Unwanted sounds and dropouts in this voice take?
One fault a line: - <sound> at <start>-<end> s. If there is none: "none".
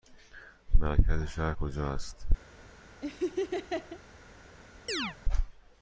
- laugh at 3.0-4.0 s
- chirp at 4.9-5.2 s